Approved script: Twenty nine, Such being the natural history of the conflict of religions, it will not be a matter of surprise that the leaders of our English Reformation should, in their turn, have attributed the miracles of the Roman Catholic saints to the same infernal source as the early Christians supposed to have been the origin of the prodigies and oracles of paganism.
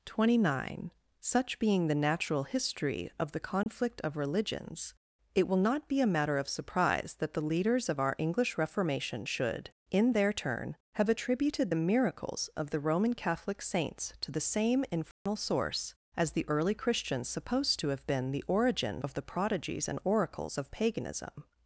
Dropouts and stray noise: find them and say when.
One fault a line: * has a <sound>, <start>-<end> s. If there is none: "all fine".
* has a dropout, 3.6-3.7 s
* has a dropout, 15.1-15.3 s